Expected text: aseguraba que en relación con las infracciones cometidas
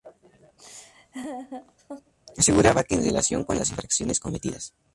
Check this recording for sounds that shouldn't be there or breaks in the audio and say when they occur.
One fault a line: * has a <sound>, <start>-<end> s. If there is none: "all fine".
* has a laugh, 0.6-2.1 s